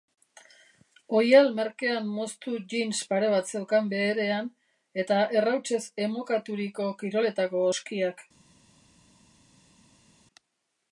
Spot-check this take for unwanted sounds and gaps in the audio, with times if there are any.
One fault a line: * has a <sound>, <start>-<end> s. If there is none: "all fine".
all fine